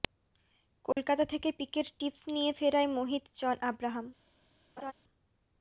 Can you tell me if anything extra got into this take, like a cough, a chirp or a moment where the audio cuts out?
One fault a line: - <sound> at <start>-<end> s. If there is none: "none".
- dropout at 0.9-1.0 s
- laugh at 4.8-4.9 s